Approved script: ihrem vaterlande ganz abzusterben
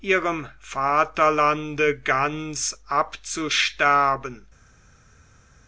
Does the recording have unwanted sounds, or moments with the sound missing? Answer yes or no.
no